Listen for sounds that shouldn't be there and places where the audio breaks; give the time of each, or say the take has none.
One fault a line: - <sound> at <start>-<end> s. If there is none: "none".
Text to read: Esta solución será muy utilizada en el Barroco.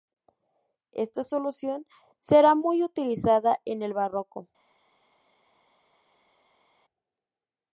none